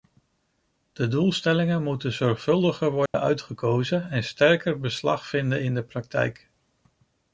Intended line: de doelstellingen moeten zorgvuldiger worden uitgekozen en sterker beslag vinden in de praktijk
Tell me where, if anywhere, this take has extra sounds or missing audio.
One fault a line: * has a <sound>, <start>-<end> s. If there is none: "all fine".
* has a dropout, 3.1-3.1 s